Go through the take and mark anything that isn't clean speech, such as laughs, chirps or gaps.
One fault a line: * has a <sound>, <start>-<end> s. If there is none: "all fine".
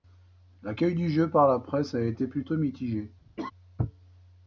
* has a laugh, 3.4-3.5 s